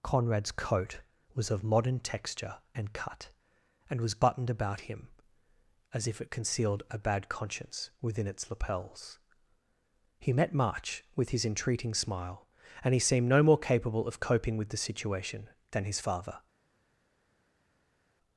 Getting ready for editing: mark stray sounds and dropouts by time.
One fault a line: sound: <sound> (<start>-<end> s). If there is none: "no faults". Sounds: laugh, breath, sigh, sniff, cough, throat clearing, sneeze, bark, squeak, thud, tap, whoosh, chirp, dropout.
no faults